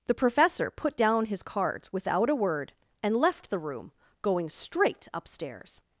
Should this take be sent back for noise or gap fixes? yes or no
no